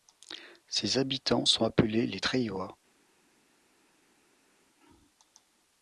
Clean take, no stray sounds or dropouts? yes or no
yes